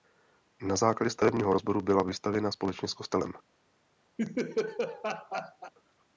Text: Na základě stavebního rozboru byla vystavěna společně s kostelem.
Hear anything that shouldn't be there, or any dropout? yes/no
yes